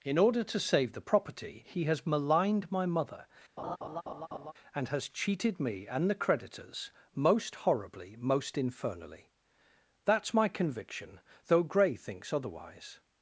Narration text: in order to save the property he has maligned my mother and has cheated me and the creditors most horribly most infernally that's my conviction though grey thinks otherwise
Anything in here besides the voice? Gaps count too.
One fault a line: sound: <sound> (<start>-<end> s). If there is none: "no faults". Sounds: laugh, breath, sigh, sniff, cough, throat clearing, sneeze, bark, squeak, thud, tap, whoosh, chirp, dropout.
sound: laugh (3.6-4.5 s)